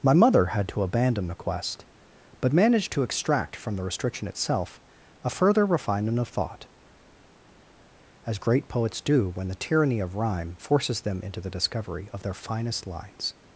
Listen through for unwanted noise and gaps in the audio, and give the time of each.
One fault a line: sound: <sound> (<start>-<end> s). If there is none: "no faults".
no faults